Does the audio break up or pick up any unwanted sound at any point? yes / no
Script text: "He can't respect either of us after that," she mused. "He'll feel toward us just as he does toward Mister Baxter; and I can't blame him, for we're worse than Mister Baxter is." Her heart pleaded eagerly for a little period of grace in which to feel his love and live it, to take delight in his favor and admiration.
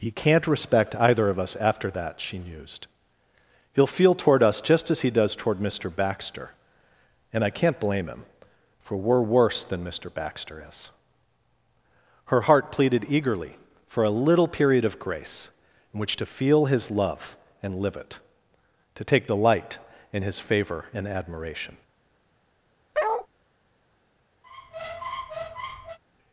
yes